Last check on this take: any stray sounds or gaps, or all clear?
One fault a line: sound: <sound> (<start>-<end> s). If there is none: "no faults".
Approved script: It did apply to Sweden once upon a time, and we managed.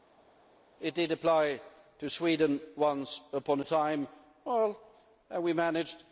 no faults